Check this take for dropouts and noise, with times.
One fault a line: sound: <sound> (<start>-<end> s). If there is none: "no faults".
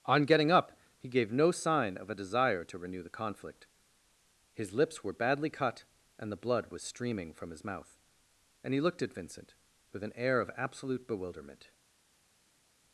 no faults